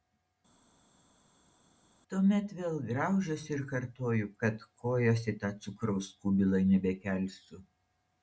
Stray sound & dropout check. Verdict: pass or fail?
pass